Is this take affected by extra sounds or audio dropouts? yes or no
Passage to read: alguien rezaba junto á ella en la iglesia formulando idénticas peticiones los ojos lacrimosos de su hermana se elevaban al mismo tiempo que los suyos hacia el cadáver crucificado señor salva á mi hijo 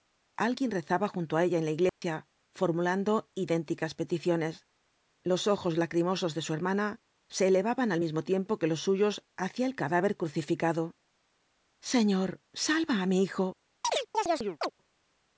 yes